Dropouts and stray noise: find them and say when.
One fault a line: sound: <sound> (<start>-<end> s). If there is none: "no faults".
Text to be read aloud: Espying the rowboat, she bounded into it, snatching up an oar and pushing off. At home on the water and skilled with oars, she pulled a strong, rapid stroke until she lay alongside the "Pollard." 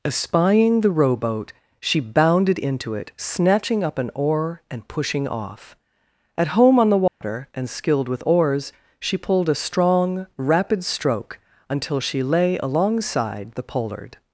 sound: dropout (7.1-7.2 s)